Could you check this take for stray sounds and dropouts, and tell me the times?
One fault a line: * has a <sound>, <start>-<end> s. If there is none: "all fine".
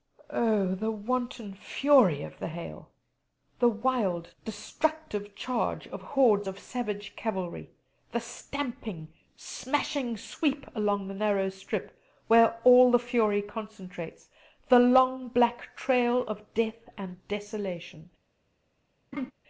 * has a laugh, 19.1-19.3 s